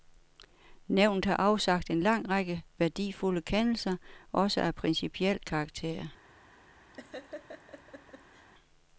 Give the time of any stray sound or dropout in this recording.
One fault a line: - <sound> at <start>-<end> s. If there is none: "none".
- laugh at 6.9-8.5 s